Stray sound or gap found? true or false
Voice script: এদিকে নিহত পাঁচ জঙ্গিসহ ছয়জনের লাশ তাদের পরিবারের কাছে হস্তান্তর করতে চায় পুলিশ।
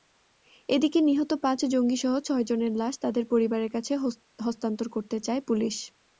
false